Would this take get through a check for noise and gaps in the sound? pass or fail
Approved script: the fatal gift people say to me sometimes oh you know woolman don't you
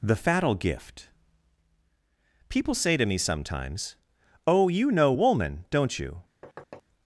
fail